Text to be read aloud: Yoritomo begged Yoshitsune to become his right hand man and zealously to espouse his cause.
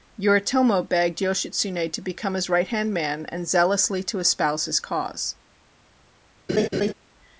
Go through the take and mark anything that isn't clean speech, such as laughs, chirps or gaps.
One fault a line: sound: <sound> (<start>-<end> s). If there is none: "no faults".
sound: laugh (6.5-6.9 s)